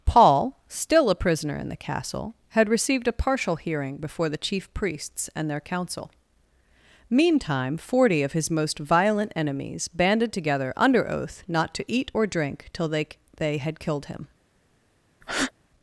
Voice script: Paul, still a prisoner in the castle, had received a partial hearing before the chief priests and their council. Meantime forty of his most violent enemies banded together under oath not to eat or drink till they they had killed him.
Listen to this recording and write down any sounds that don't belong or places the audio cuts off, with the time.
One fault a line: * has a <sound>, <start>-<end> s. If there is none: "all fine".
* has a breath, 15.2-15.5 s